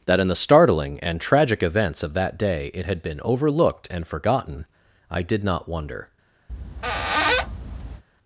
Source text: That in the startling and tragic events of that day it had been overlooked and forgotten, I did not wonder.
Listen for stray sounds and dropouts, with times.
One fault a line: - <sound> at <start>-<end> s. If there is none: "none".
- squeak at 6.5-8.0 s